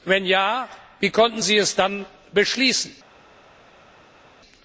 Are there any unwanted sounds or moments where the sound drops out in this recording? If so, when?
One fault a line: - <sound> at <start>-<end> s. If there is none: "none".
none